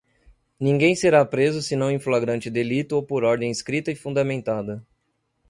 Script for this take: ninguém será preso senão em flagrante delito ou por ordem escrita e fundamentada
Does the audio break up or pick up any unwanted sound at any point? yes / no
no